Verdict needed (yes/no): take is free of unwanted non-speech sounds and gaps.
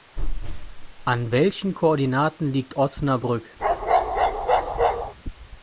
no